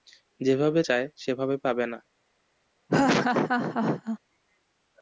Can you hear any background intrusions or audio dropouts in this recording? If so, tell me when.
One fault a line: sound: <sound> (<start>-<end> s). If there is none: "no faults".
sound: laugh (2.9-4.2 s)